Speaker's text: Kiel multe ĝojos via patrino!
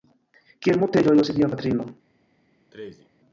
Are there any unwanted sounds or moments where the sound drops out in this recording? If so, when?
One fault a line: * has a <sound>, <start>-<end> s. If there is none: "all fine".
* has a sneeze, 2.7-3.1 s